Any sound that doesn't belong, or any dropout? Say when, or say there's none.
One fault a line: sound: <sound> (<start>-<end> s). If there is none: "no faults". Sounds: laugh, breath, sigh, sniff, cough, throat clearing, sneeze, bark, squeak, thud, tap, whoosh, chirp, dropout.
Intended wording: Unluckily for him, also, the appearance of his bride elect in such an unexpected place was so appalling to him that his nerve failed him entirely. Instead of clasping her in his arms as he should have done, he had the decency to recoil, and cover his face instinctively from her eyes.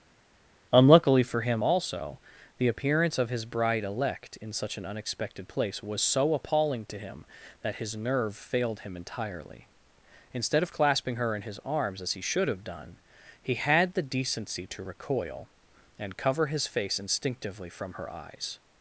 no faults